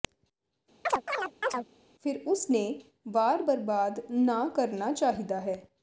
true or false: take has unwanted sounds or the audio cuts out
true